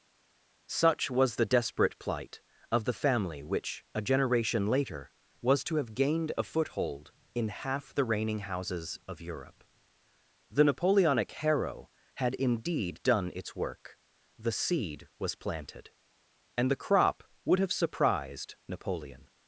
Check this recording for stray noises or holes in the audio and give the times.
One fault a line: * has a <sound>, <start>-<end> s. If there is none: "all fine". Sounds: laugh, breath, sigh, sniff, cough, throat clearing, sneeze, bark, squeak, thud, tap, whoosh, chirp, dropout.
all fine